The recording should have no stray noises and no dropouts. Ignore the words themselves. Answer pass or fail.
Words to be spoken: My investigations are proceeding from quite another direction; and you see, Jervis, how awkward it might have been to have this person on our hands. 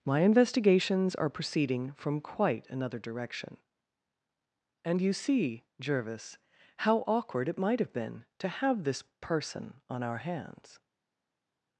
pass